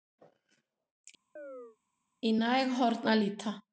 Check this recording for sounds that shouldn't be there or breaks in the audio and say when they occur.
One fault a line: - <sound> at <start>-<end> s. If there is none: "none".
- chirp at 1.4-1.8 s